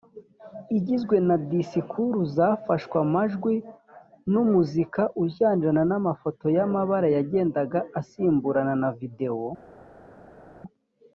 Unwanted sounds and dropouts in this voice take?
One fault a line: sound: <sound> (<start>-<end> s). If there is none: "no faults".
no faults